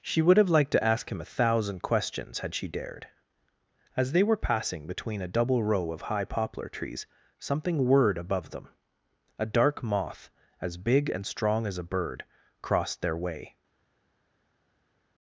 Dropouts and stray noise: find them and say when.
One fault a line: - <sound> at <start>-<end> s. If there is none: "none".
none